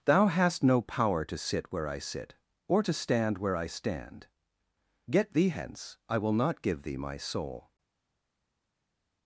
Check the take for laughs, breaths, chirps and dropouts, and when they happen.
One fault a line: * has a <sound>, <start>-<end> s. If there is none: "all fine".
all fine